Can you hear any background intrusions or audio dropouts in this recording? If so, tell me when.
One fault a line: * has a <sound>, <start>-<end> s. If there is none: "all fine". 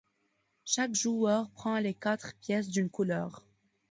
all fine